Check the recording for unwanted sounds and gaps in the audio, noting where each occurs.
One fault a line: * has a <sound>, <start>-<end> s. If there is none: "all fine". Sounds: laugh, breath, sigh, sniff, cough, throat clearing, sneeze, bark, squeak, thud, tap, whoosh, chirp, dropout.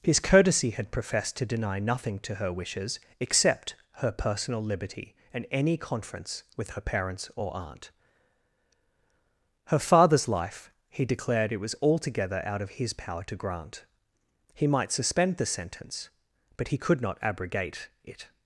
all fine